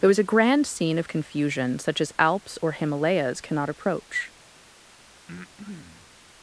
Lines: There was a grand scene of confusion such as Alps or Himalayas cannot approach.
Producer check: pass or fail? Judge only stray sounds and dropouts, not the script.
fail